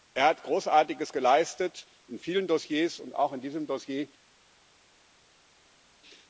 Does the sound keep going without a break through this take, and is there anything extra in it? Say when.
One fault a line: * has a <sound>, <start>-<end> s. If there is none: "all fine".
all fine